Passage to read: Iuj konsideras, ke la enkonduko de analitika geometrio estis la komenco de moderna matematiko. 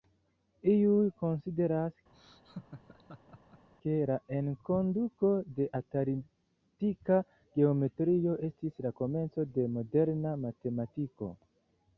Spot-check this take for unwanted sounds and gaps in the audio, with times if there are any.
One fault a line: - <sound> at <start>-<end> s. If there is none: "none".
- laugh at 2.1-3.7 s